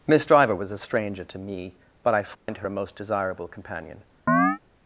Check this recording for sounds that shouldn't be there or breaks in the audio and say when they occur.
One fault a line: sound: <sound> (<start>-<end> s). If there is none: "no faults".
sound: dropout (2.3-2.5 s)
sound: chirp (4.3-4.6 s)